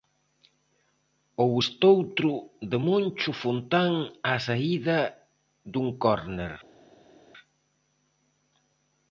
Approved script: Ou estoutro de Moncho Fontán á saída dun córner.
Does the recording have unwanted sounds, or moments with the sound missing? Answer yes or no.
no